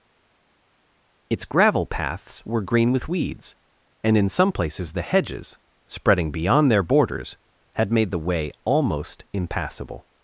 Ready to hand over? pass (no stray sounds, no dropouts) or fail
pass